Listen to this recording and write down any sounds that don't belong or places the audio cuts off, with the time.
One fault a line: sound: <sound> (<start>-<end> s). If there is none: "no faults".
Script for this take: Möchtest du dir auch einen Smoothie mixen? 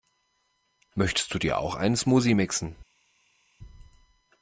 no faults